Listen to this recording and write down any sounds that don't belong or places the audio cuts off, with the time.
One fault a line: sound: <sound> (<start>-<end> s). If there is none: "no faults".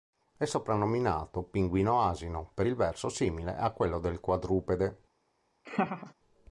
sound: laugh (5.7-6.1 s)